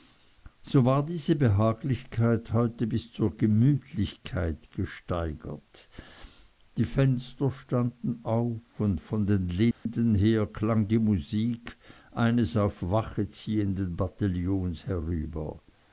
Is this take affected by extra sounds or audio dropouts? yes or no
yes